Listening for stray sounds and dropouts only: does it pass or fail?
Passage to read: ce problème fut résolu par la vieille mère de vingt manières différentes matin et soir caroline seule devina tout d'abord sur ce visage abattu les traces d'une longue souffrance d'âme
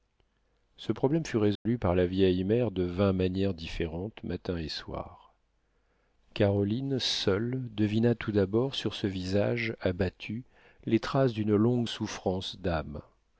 fail